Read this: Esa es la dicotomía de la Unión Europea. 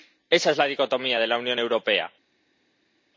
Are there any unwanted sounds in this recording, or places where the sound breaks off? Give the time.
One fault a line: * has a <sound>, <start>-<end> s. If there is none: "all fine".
all fine